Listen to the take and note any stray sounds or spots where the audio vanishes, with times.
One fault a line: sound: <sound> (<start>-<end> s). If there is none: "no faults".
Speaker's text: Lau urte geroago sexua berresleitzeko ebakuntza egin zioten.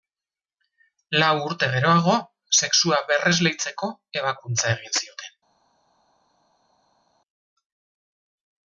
no faults